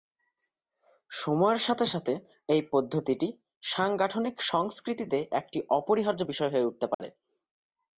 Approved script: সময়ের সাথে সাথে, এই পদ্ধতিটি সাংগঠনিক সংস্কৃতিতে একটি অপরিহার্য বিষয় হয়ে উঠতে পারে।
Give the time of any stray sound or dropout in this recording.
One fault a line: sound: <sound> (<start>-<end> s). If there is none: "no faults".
sound: dropout (6.9-7.0 s)